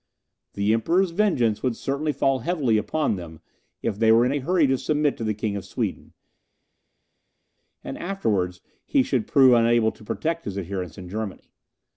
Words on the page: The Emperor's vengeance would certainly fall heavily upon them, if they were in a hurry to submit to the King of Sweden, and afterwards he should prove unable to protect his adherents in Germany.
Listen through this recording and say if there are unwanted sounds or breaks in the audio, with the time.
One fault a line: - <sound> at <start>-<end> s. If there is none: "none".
none